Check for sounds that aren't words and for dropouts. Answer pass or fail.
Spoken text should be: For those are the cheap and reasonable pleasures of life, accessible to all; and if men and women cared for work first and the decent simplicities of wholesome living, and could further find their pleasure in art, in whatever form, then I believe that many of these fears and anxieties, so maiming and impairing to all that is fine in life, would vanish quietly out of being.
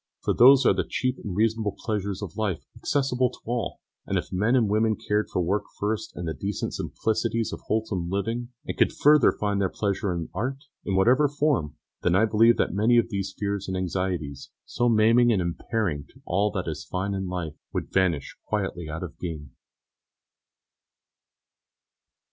pass